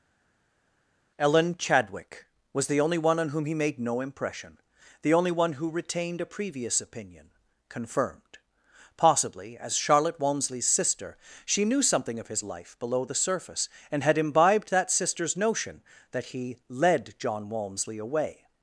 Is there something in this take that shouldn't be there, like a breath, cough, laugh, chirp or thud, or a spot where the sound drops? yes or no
no